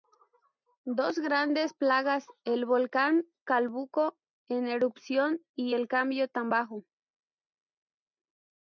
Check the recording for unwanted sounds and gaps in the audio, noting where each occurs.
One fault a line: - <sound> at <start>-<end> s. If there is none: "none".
none